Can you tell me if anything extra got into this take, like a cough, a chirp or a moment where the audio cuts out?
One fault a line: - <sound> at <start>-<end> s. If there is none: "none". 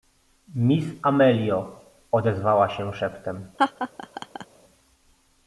- laugh at 3.6-4.5 s